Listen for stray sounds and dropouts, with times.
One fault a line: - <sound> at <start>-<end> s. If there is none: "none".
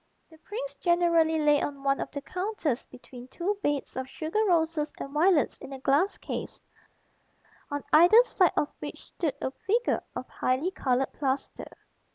none